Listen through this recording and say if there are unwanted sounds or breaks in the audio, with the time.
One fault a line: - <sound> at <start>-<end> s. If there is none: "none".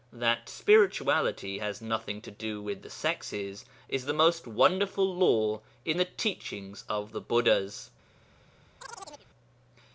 - chirp at 8.8-9.3 s